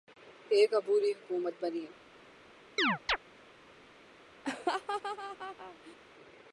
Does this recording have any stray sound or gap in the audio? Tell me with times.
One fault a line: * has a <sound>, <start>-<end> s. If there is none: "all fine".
* has a chirp, 2.8-3.2 s
* has a laugh, 4.4-6.0 s